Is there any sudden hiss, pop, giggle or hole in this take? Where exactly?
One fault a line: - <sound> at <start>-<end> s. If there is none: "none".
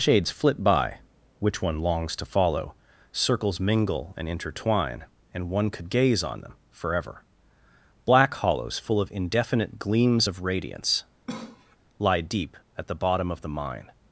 - cough at 11.3-11.8 s